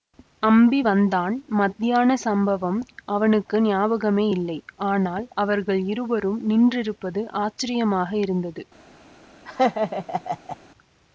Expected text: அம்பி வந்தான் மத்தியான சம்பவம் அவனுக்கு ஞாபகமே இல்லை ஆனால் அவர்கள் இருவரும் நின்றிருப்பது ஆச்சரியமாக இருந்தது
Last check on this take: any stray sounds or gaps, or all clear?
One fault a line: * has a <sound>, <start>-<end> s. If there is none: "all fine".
* has a laugh, 9.5-10.6 s